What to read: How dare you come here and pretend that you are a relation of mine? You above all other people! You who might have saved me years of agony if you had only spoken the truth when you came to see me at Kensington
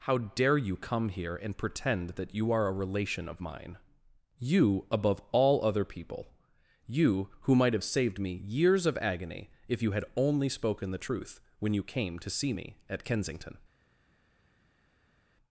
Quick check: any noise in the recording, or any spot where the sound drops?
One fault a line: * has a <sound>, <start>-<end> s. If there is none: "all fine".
all fine